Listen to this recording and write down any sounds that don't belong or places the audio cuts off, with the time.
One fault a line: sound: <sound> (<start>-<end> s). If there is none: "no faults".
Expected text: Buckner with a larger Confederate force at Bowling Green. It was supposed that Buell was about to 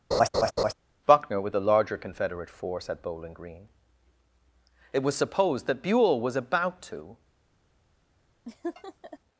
sound: laugh (0.1-0.7 s)
sound: laugh (8.5-9.2 s)